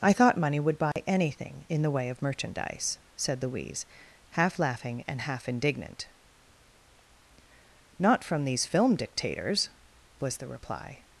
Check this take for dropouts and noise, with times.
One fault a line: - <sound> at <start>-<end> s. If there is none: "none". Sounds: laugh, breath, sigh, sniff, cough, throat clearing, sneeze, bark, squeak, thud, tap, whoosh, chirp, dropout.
- dropout at 0.9-1.0 s